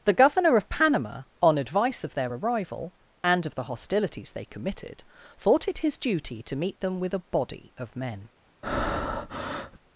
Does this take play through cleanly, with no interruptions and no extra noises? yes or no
no